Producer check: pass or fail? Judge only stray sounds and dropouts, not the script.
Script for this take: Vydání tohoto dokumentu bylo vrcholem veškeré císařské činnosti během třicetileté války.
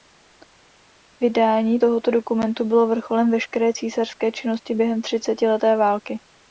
pass